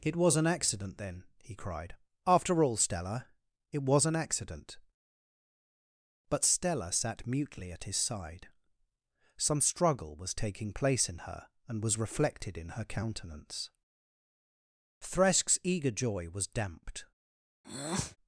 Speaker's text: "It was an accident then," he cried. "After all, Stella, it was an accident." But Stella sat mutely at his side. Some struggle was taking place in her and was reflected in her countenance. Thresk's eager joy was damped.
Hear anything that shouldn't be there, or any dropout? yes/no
yes